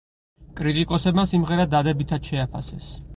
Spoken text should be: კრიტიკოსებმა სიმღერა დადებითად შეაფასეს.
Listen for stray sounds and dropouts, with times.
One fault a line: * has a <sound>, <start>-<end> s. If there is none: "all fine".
all fine